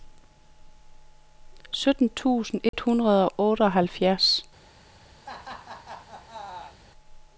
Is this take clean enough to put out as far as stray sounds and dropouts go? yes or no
no